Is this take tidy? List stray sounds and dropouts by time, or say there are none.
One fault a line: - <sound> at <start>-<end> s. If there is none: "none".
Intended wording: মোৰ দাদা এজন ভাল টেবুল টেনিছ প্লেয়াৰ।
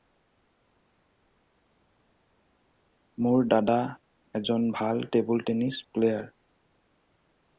none